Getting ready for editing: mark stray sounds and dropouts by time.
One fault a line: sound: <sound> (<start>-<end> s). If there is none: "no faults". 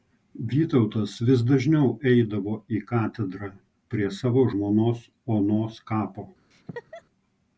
sound: laugh (6.5-7.0 s)